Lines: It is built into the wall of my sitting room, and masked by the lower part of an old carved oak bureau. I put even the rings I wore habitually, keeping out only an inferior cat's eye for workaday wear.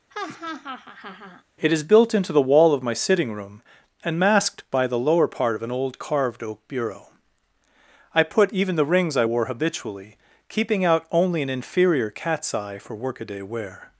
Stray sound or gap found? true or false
true